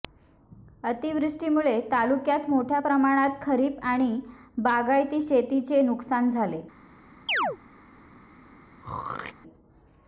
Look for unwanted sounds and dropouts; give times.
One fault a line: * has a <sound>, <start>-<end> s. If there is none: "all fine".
* has a chirp, 7.3-7.6 s
* has a throat clearing, 8.8-9.3 s